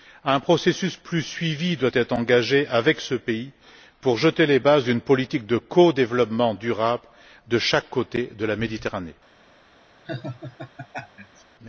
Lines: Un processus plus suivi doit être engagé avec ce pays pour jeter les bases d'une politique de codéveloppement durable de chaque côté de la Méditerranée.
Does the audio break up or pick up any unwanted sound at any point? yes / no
yes